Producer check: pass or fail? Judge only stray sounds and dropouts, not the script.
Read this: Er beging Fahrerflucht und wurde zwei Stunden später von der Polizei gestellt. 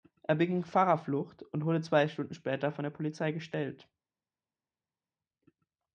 pass